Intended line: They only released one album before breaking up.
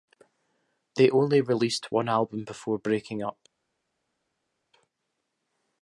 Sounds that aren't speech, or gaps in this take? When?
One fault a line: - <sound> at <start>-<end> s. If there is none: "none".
none